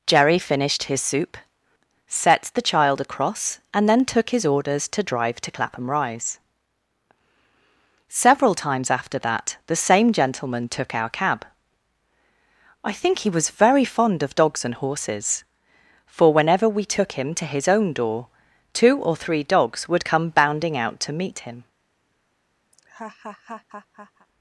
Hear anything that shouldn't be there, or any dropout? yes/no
yes